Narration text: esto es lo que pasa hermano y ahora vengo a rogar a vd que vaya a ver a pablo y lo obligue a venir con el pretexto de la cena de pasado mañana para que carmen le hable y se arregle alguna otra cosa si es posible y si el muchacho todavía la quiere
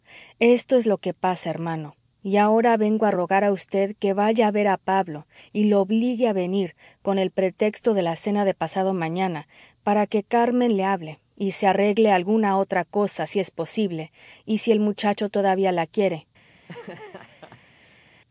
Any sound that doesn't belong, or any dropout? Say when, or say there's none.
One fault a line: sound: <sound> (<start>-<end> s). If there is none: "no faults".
sound: laugh (16.5-18.1 s)